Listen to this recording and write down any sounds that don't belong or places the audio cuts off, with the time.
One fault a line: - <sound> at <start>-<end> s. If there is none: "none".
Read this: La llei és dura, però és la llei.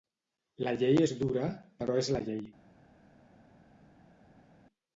none